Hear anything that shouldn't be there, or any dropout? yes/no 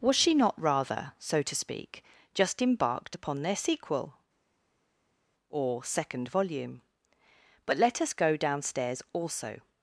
no